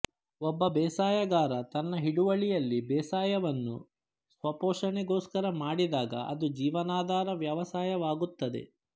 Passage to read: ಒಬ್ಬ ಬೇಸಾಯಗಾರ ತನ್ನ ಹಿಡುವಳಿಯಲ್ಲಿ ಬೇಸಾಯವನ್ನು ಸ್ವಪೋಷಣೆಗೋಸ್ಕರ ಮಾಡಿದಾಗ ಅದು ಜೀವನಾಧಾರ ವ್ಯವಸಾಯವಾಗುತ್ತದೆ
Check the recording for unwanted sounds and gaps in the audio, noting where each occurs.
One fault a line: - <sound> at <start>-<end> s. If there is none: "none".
none